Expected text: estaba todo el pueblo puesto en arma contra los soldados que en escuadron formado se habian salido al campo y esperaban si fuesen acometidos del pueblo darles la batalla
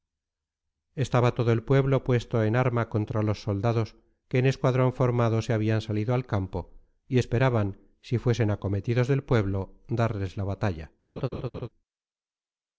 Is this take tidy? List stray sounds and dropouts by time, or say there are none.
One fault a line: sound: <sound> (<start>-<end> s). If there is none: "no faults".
sound: laugh (11.2-11.7 s)